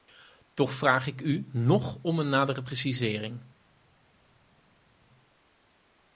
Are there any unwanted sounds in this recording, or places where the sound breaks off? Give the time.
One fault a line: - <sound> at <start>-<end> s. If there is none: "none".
none